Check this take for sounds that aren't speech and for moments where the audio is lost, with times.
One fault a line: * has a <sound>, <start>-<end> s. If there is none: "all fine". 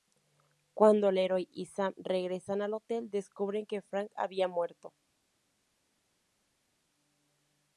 all fine